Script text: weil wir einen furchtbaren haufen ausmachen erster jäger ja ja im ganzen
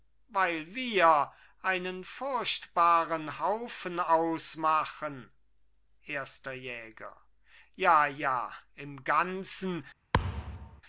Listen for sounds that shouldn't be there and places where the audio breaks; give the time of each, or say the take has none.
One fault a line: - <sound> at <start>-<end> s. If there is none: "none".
- thud at 10.1-10.8 s